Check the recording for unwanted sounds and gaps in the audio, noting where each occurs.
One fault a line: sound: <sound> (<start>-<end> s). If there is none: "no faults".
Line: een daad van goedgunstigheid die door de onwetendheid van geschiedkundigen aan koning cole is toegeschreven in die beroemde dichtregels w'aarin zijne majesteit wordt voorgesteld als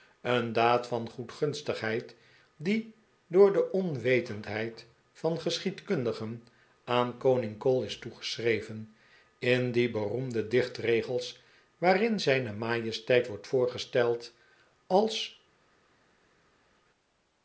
no faults